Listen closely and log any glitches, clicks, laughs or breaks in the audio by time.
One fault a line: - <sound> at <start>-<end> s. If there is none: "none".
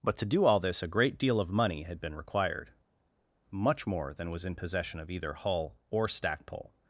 none